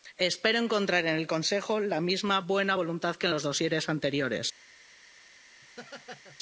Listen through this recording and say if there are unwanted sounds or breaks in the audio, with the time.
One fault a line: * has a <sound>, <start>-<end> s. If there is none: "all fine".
* has a laugh, 5.6-6.4 s